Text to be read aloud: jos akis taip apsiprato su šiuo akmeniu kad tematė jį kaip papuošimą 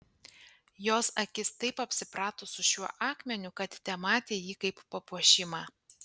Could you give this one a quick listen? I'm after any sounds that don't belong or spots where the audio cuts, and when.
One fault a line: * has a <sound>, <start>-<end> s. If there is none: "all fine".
all fine